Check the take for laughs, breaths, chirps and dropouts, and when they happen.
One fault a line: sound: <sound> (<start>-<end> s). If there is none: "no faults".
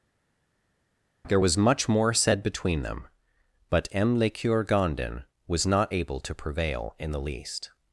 no faults